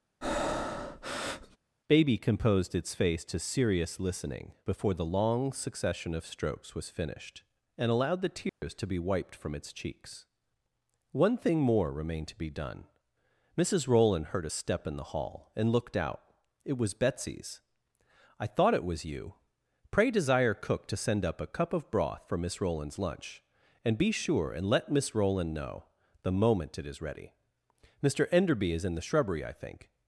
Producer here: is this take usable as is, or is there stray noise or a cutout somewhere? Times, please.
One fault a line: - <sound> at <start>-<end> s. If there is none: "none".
- breath at 0.2-1.6 s
- dropout at 8.5-8.6 s